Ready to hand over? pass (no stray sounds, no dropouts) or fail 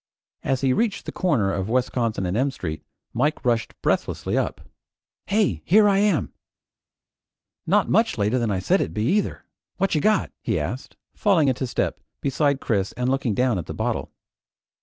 pass